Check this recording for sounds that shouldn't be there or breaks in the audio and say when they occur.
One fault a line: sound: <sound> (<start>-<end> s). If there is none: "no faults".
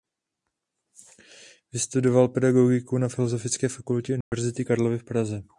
sound: dropout (4.2-4.3 s)